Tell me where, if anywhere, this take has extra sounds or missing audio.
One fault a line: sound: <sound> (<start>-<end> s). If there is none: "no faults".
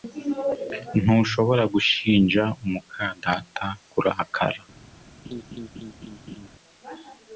sound: laugh (5.2-6.5 s)